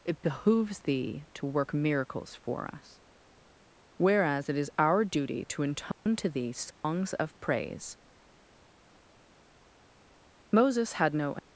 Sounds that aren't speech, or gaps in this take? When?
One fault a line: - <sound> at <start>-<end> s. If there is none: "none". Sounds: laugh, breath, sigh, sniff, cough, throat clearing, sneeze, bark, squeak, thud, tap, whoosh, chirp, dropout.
- dropout at 5.9-6.1 s
- dropout at 6.7-6.8 s